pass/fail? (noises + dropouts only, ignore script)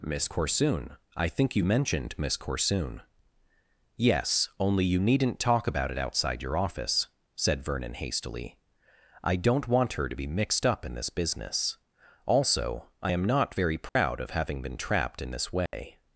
fail